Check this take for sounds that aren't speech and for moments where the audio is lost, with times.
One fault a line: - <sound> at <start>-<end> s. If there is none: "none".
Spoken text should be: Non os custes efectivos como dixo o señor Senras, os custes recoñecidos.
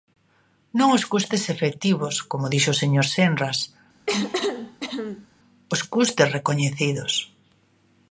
- cough at 4.1-5.3 s